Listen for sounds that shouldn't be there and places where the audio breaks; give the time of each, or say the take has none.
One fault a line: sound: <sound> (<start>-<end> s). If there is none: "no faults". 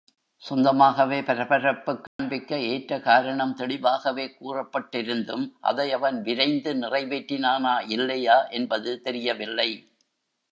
sound: dropout (2.1-2.2 s)